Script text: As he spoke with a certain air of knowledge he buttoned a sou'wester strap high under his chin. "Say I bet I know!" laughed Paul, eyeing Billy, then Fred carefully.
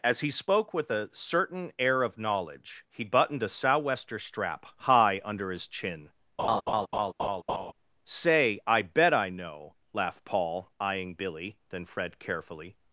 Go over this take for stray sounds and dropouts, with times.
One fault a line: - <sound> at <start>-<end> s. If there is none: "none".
- laugh at 6.4-7.7 s